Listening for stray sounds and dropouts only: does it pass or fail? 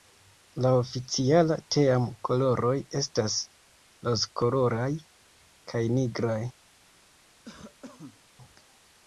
fail